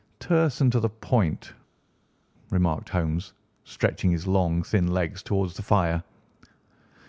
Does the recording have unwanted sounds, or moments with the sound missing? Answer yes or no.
no